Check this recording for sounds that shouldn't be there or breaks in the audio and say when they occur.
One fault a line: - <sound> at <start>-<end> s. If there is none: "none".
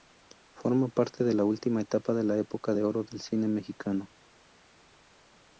none